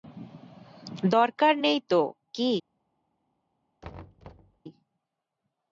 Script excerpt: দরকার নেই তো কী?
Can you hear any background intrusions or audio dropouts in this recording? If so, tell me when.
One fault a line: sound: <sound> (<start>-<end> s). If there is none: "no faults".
sound: thud (3.8-4.6 s)